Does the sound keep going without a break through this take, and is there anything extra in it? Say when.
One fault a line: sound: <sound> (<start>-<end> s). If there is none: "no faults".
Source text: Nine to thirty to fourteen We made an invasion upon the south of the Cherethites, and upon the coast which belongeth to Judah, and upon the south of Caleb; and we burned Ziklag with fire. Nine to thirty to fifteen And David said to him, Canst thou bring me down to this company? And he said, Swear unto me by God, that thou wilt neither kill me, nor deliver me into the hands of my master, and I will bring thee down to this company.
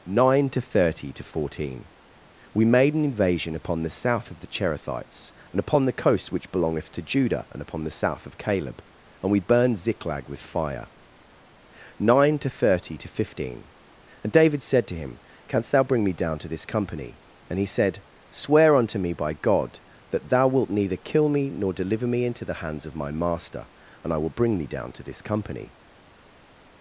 no faults